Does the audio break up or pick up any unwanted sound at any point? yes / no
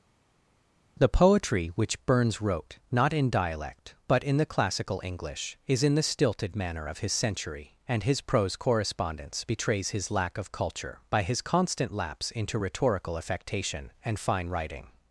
no